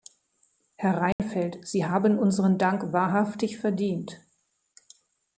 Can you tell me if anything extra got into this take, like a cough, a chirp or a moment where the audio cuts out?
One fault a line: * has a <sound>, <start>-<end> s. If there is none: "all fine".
* has a dropout, 1.1-1.2 s